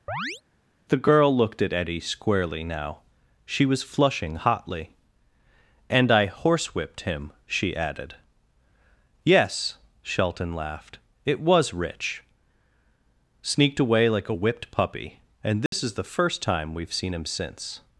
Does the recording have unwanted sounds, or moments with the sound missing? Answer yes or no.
yes